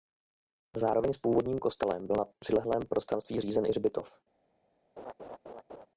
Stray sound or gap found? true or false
true